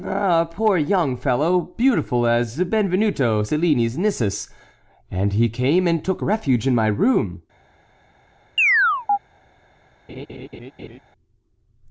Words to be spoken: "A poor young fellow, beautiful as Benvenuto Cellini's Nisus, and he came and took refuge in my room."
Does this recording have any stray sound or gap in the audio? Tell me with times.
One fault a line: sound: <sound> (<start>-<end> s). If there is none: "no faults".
sound: chirp (8.6-9.2 s)
sound: laugh (10.1-11.0 s)